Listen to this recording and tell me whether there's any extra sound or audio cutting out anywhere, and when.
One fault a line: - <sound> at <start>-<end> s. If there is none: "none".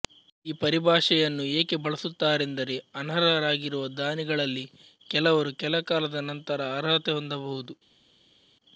none